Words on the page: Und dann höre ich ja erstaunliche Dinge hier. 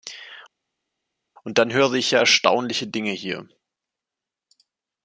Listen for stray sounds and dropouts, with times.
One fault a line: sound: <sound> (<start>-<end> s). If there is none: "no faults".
no faults